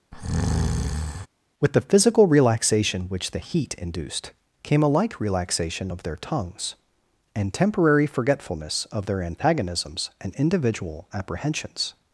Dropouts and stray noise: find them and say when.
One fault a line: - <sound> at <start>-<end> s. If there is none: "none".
- breath at 0.1-1.3 s